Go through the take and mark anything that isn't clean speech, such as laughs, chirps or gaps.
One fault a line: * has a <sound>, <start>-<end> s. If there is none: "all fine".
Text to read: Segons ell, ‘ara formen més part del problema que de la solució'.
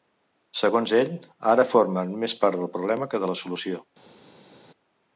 all fine